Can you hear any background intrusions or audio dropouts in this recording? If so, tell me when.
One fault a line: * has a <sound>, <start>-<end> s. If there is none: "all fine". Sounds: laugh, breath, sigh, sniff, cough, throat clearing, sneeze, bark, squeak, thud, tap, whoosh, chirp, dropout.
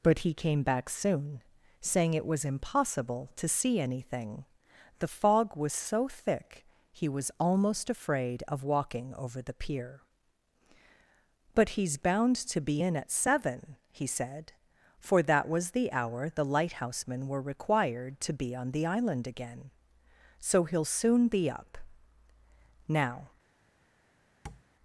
* has a tap, 24.5-24.6 s